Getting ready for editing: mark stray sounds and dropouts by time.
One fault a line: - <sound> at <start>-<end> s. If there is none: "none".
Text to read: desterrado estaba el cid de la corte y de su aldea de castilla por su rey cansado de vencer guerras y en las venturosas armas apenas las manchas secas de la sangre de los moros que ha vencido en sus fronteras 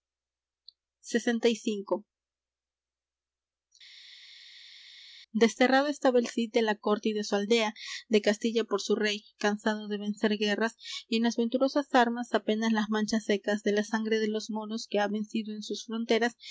none